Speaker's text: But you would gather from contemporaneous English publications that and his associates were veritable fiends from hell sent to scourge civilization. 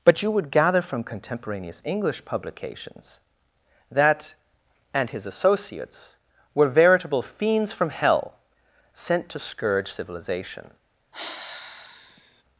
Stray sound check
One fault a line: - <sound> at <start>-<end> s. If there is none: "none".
- sigh at 11.1-12.4 s